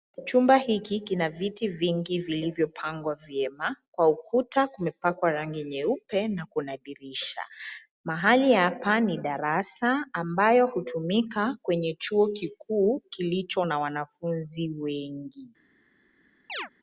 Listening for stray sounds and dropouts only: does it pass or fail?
fail